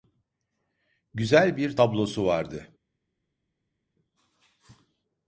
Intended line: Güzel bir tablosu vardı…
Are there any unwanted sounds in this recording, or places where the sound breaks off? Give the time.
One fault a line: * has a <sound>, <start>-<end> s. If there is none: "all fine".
all fine